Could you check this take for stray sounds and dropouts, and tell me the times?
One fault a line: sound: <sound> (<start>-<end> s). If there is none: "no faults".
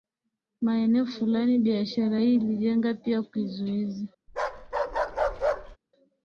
sound: bark (4.3-5.8 s)